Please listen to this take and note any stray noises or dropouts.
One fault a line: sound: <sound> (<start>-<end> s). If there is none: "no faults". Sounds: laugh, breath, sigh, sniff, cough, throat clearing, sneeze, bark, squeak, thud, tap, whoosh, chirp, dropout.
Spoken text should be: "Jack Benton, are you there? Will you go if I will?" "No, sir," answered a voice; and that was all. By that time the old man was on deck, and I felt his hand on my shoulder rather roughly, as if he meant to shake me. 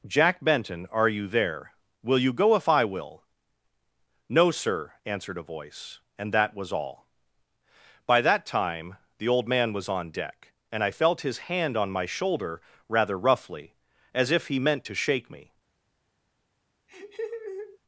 sound: laugh (16.9-17.8 s)